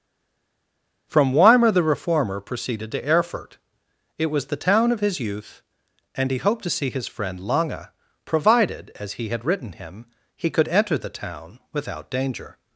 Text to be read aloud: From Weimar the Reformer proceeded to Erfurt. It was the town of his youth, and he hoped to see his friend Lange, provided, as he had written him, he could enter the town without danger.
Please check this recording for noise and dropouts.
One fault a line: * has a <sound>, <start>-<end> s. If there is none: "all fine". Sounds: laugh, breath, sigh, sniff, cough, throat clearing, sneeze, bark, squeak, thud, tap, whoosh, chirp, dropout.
all fine